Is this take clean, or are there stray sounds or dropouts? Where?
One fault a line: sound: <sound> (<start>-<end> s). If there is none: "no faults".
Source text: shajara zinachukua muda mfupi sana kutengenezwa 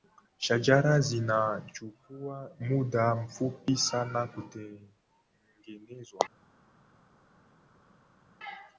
no faults